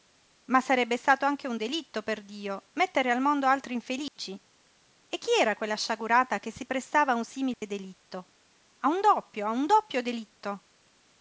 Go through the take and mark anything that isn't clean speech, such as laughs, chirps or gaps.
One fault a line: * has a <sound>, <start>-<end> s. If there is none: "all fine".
* has a dropout, 4.1-4.2 s
* has a dropout, 7.5-7.6 s